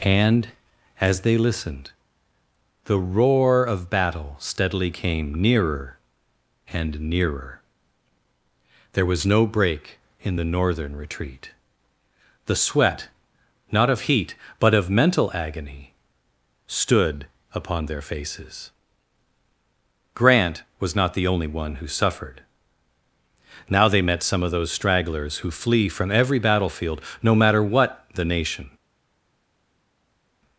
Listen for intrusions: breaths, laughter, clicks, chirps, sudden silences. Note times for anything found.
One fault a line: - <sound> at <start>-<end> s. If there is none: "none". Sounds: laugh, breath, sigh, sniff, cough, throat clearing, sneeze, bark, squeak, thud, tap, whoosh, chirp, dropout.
none